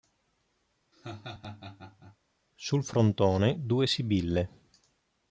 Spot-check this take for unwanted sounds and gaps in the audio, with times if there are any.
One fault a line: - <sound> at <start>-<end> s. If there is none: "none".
- laugh at 0.9-2.2 s